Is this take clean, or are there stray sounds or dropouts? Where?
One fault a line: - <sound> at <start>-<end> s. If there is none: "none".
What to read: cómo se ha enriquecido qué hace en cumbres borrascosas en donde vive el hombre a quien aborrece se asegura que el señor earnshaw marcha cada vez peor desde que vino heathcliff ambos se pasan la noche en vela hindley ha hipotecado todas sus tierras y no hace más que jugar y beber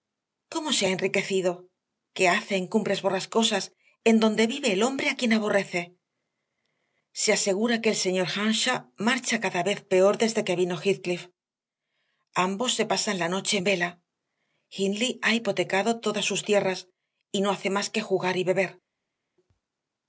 none